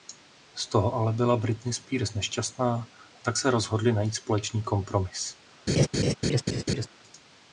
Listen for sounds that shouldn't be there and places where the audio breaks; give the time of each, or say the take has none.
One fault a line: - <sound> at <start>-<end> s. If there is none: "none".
- laugh at 5.7-6.9 s